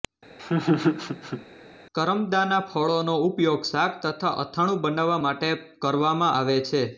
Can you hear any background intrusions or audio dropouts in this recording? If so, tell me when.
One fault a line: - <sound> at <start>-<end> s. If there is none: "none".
- laugh at 0.4-1.5 s